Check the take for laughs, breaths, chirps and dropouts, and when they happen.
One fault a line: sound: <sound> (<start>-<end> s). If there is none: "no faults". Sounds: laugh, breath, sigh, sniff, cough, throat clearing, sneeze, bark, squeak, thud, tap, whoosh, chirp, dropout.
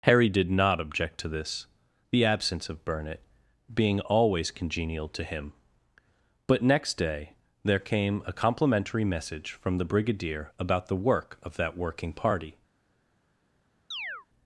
sound: chirp (13.9-14.3 s)